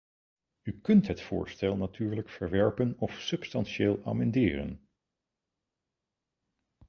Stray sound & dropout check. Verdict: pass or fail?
pass